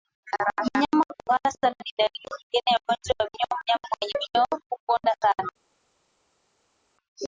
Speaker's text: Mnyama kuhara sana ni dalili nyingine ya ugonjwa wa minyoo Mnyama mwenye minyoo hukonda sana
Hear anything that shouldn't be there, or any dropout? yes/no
no